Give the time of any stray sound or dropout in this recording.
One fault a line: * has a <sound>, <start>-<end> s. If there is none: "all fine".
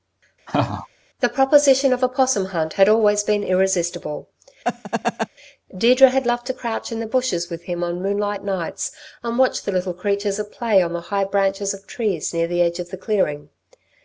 * has a laugh, 0.5-0.9 s
* has a laugh, 4.6-5.3 s